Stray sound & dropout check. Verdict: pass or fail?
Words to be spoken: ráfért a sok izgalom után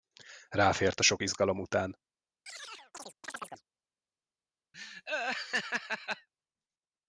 fail